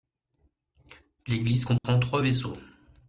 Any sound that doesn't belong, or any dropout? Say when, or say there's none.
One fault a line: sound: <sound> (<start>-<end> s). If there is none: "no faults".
sound: dropout (1.8-1.8 s)